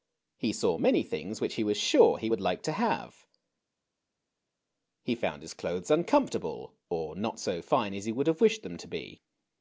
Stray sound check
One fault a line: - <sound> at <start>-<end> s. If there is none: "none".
none